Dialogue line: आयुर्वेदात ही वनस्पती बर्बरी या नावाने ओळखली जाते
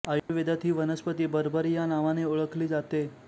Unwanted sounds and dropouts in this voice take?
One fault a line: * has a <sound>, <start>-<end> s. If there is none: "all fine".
* has a dropout, 0.2-0.3 s